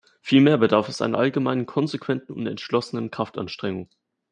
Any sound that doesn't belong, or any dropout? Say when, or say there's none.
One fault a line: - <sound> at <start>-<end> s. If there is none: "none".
none